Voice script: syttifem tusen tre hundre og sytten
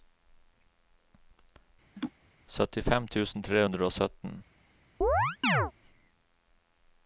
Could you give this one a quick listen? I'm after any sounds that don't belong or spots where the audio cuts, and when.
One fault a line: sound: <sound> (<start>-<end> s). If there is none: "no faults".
sound: laugh (2.0-2.1 s)
sound: chirp (5.0-5.7 s)